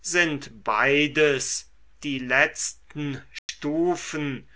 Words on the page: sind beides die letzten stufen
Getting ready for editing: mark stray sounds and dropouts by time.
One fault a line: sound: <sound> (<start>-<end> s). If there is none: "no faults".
sound: dropout (3.4-3.5 s)